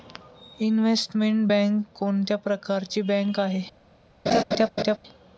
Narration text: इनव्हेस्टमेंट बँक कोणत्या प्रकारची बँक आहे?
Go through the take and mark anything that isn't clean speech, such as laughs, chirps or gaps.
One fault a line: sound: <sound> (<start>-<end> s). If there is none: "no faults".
sound: laugh (4.3-5.0 s)